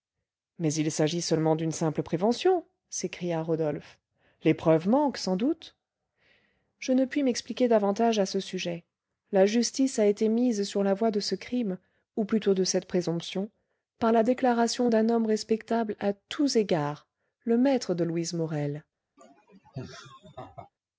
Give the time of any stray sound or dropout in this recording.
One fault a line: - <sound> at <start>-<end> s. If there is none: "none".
- laugh at 19.2-20.7 s